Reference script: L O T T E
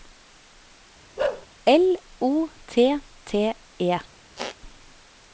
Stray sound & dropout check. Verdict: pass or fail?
fail